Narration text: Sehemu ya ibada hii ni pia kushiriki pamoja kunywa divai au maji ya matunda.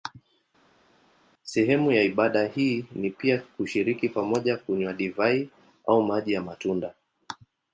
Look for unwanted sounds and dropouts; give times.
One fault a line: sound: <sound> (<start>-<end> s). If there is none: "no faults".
no faults